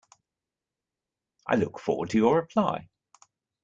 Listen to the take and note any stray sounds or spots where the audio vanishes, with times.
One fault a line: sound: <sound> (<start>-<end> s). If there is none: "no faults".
no faults